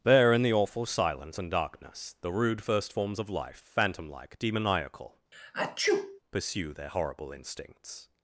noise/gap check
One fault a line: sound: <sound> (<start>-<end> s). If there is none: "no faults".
sound: sneeze (5.3-6.2 s)